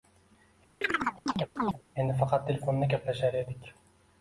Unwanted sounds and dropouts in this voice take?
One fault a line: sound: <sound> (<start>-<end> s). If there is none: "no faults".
sound: chirp (0.8-1.8 s)